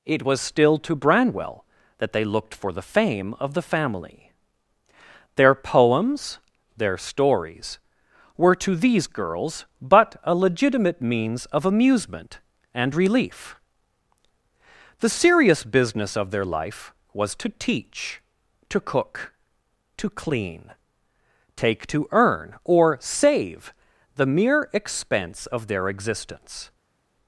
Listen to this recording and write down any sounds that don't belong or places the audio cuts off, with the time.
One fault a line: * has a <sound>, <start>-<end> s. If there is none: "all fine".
all fine